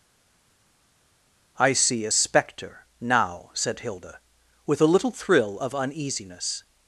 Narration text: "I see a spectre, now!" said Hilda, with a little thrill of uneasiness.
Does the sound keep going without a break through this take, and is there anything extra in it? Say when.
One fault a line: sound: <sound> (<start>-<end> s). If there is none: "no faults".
no faults